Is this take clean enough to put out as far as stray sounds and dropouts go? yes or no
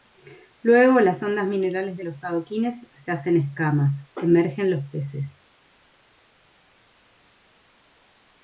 yes